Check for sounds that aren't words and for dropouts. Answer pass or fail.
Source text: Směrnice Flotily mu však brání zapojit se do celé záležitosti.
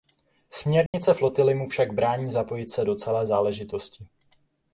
fail